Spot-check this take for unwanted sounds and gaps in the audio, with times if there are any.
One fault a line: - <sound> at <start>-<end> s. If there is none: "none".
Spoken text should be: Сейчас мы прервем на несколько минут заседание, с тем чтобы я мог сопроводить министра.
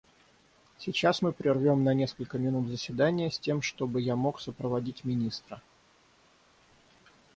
none